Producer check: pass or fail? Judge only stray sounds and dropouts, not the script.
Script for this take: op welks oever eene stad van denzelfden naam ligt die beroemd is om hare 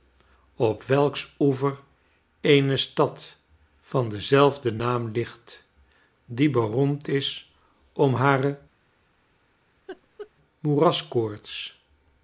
fail